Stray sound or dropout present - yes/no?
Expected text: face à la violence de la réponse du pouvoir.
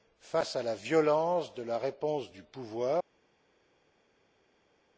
no